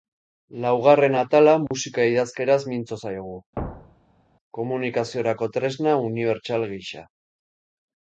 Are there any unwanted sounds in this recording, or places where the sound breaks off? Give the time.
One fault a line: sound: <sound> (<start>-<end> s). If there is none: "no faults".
sound: dropout (1.7-1.7 s)
sound: thud (3.6-4.2 s)